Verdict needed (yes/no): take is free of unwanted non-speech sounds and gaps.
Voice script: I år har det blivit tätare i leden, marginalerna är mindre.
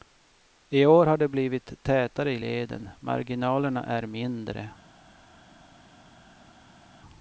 yes